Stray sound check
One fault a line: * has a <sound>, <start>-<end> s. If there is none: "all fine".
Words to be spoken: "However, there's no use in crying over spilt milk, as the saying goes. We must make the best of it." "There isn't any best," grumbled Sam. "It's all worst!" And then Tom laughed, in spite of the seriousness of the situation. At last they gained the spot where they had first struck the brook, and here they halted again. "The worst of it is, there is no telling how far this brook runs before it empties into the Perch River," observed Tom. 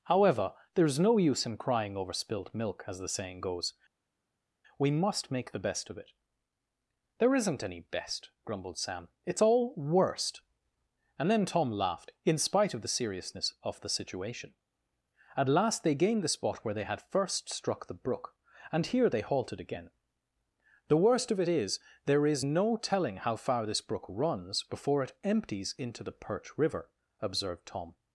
all fine